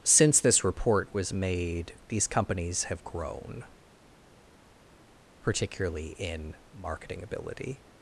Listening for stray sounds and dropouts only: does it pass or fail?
pass